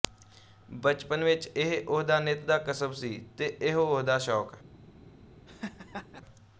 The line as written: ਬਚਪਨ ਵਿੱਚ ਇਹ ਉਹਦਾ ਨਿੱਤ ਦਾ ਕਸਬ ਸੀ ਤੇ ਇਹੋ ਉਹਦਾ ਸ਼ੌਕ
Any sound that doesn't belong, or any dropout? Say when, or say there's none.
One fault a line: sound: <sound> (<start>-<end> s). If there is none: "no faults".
sound: laugh (5.5-6.2 s)